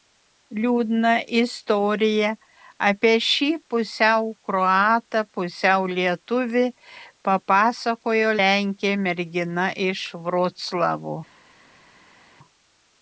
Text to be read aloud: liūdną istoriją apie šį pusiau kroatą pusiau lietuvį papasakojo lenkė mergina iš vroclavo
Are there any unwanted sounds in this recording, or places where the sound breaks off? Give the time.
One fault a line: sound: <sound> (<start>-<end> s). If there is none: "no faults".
no faults